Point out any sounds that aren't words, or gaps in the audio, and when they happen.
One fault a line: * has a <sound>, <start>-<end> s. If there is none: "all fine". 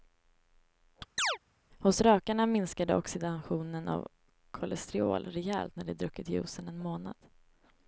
* has a chirp, 1.2-1.4 s